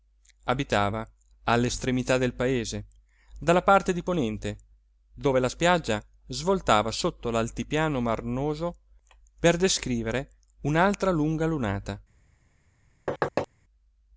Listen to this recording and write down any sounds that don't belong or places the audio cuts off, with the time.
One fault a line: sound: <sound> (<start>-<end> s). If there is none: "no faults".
sound: thud (13.1-13.5 s)